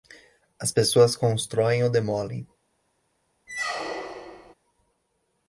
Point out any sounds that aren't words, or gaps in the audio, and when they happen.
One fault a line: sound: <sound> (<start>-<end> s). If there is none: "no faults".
sound: squeak (3.5-4.5 s)